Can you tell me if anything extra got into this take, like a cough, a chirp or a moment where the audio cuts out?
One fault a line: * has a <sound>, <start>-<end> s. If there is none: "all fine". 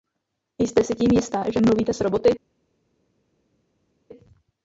all fine